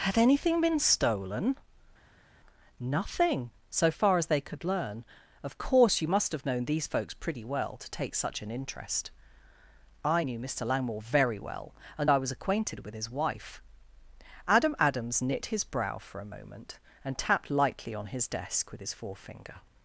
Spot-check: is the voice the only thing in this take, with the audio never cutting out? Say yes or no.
yes